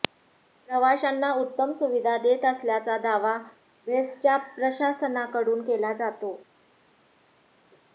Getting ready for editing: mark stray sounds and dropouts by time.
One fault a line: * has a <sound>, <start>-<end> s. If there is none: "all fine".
all fine